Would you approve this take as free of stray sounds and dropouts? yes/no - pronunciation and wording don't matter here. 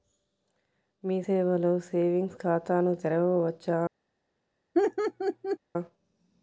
no